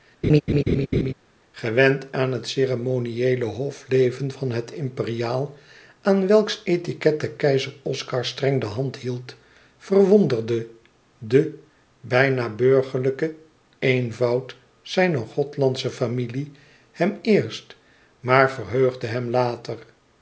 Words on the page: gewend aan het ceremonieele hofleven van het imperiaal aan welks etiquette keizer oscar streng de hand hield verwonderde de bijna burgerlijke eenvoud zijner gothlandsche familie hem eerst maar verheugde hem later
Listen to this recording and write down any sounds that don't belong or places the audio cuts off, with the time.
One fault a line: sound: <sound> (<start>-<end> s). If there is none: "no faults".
sound: laugh (0.2-1.1 s)